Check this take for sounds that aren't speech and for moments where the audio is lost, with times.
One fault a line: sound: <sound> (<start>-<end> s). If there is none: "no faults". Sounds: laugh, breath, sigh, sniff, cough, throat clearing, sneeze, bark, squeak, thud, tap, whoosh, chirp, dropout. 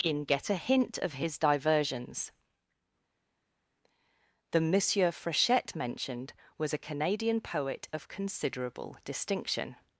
no faults